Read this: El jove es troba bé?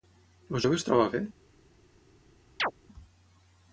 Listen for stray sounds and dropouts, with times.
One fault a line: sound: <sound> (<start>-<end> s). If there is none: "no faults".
sound: chirp (2.6-2.7 s)